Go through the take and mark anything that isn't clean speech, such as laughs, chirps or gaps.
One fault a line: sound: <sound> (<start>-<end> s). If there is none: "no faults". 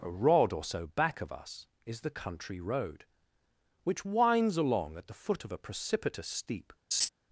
sound: laugh (6.9-7.1 s)